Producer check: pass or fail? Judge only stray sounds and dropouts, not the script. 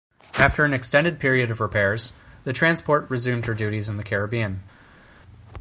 pass